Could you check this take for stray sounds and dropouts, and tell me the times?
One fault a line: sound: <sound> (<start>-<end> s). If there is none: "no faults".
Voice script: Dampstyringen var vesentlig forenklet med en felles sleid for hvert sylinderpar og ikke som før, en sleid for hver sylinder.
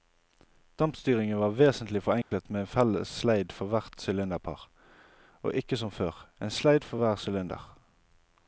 sound: dropout (2.2-2.3 s)